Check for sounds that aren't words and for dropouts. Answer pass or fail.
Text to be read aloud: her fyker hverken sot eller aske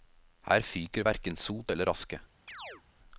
fail